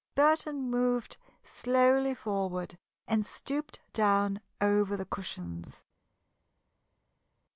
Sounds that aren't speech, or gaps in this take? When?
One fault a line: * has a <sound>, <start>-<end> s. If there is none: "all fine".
all fine